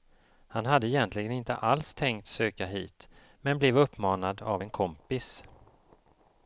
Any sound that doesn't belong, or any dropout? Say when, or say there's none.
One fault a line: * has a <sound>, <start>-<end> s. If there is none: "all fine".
all fine